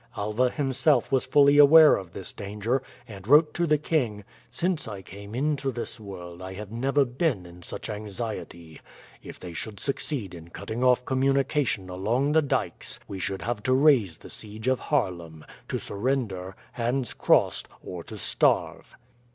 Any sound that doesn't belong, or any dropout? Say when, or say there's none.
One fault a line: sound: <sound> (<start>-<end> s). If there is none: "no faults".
no faults